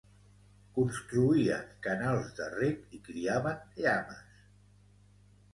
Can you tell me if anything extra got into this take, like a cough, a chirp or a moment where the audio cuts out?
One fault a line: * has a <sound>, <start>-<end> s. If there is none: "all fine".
all fine